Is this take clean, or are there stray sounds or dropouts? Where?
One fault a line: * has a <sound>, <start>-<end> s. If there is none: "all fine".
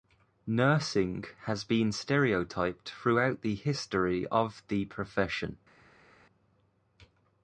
all fine